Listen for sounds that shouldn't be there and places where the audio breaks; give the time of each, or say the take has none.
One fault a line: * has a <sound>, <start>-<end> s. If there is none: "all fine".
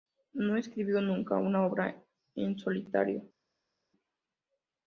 all fine